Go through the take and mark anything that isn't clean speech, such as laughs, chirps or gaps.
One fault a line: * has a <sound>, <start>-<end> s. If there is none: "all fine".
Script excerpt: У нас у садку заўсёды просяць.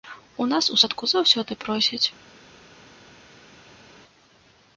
all fine